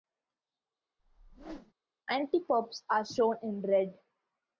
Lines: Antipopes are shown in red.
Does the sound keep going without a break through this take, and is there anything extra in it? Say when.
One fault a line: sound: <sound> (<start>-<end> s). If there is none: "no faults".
sound: whoosh (1.0-1.7 s)